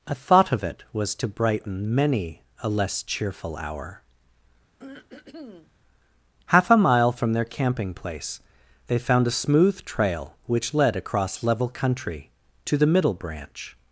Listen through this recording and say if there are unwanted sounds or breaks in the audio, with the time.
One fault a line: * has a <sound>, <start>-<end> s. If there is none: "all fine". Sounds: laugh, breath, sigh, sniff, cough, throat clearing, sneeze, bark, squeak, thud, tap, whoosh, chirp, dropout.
* has a throat clearing, 4.8-5.7 s